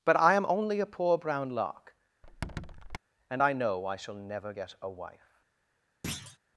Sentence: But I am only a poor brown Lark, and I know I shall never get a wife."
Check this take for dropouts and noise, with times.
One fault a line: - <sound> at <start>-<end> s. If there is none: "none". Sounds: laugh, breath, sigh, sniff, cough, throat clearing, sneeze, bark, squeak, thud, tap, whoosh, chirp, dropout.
- squeak at 2.2-3.0 s
- thud at 6.0-6.4 s